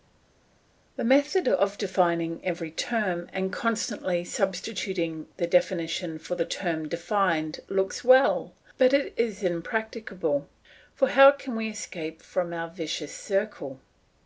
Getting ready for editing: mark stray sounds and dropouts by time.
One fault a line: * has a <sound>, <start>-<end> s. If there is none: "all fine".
all fine